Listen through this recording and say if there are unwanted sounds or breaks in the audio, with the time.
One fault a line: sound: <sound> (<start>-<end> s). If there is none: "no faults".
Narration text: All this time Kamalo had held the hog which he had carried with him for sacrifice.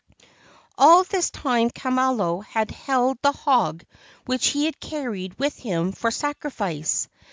no faults